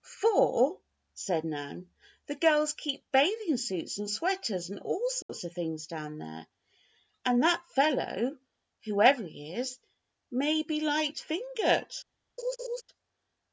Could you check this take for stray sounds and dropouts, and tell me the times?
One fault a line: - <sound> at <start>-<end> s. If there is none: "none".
- dropout at 5.2-5.3 s
- laugh at 12.4-12.8 s